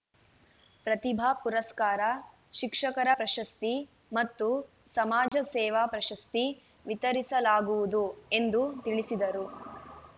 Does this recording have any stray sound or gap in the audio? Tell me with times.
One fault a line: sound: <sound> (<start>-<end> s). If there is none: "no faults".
sound: dropout (5.3-5.3 s)